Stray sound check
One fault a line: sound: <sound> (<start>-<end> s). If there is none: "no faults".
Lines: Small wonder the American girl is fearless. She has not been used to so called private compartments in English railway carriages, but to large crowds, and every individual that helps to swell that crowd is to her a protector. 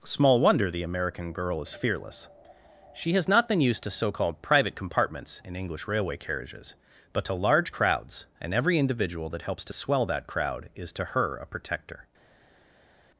no faults